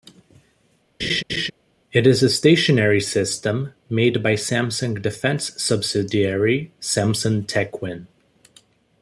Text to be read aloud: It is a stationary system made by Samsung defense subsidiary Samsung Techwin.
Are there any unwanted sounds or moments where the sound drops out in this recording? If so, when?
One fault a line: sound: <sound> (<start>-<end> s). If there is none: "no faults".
sound: laugh (1.0-1.5 s)